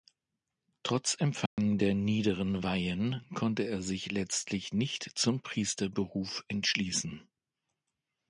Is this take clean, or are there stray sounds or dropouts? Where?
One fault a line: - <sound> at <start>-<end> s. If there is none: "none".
- dropout at 1.5-1.6 s